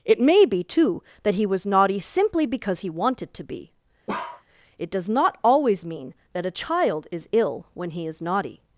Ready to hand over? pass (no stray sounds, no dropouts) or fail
fail